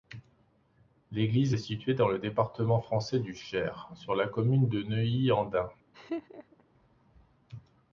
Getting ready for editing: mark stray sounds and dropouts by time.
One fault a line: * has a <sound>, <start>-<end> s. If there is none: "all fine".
* has a laugh, 5.9-6.6 s